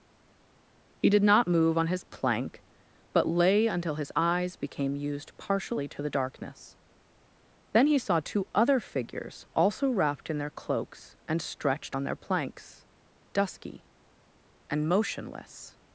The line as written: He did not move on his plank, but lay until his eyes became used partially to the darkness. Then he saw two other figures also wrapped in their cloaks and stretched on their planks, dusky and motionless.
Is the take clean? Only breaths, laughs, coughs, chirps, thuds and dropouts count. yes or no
yes